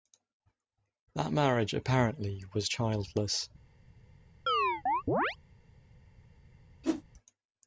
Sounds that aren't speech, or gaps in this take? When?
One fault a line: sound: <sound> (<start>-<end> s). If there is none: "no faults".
sound: chirp (4.5-5.4 s)
sound: whoosh (6.8-7.0 s)